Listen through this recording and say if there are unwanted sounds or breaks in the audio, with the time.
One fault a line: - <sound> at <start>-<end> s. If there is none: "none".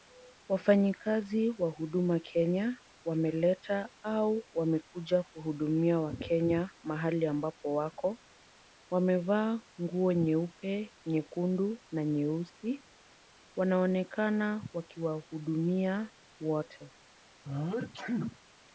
- sneeze at 17.4-18.4 s